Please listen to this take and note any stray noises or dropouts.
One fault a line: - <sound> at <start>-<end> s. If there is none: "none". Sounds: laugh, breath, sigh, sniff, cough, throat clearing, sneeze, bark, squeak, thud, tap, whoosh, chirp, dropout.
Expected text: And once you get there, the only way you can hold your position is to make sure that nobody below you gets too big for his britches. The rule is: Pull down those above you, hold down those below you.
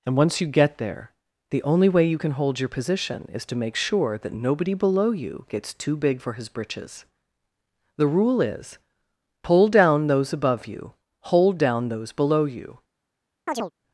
- chirp at 13.5-13.7 s